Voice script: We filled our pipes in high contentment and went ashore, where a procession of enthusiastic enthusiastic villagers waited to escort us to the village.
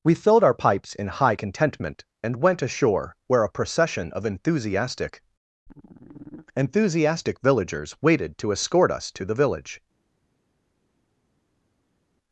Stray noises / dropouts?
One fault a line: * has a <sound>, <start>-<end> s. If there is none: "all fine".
all fine